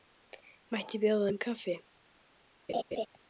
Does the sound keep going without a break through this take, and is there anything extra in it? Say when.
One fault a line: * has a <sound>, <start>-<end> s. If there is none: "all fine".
* has a laugh, 2.7-3.1 s